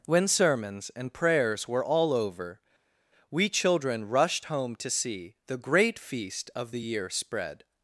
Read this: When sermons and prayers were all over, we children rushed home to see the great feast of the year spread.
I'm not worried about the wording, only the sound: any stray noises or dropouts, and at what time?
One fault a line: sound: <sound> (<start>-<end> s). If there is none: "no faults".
no faults